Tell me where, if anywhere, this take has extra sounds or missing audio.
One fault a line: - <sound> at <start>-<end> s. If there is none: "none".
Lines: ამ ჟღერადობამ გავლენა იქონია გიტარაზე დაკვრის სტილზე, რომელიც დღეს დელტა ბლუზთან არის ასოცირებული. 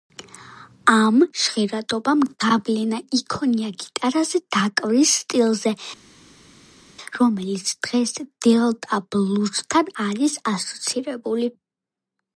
none